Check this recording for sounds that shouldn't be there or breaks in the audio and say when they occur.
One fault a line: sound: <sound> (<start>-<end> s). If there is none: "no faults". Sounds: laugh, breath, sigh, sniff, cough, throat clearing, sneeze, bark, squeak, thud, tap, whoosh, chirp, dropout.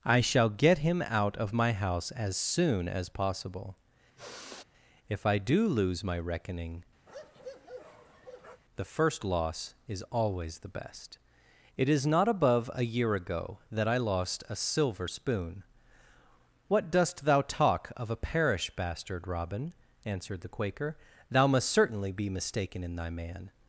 sound: sigh (4.2-4.6 s)
sound: bark (7.1-8.6 s)